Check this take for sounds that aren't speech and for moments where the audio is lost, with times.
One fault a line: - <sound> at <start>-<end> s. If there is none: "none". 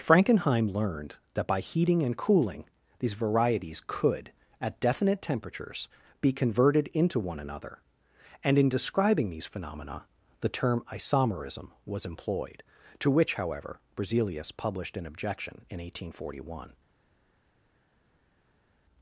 none